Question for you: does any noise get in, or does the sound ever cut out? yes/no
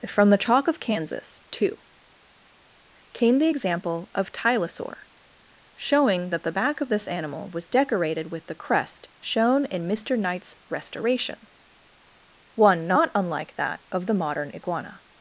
no